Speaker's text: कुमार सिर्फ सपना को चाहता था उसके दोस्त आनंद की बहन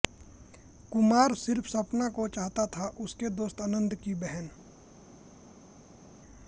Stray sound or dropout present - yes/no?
no